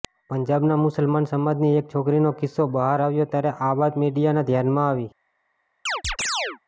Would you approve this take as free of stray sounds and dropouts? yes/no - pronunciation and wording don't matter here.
no